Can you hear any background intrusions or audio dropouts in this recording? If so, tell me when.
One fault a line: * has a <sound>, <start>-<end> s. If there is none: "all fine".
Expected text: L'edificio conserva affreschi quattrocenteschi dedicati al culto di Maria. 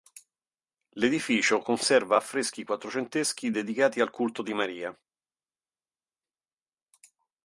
all fine